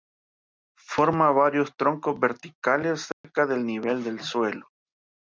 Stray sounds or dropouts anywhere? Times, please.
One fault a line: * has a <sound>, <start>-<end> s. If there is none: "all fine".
* has a dropout, 3.1-3.2 s